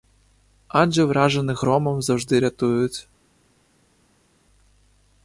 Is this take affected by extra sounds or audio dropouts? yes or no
no